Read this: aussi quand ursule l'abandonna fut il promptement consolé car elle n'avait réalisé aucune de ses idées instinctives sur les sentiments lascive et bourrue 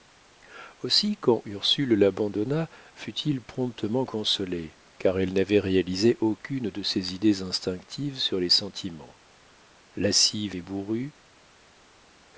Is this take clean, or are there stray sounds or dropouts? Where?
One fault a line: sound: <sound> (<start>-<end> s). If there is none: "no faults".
no faults